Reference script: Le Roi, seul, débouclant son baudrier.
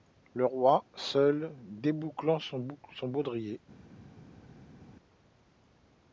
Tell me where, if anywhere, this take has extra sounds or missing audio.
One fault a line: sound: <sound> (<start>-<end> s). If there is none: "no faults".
no faults